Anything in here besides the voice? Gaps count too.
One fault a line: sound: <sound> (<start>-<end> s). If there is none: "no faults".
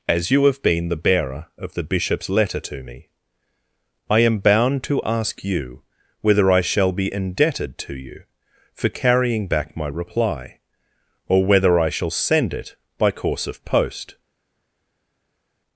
no faults